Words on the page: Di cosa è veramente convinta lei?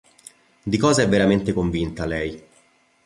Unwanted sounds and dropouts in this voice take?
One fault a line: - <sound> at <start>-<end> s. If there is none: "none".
none